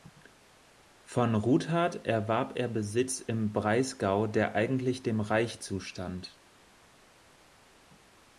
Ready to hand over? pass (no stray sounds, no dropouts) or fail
pass